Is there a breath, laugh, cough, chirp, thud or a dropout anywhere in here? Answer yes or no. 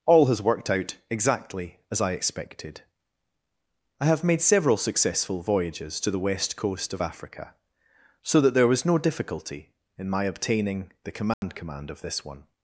yes